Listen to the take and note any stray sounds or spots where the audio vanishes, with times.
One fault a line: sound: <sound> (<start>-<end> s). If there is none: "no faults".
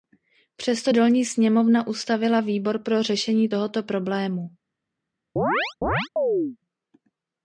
sound: chirp (5.4-6.6 s)